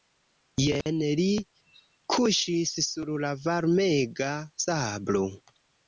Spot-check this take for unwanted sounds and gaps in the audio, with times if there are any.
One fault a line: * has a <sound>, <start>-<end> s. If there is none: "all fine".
* has a dropout, 0.8-0.9 s